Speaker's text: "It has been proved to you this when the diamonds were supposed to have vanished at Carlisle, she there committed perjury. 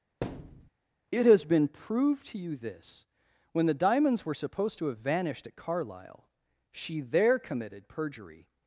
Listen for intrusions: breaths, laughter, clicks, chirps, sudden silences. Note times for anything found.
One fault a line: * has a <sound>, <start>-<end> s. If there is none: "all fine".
* has a thud, 0.2-0.7 s